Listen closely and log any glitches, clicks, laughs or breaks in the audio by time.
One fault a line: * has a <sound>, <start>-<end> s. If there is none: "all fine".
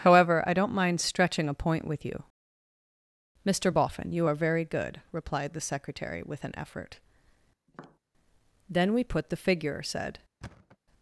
* has a tap, 7.7-8.0 s
* has a thud, 10.4-10.8 s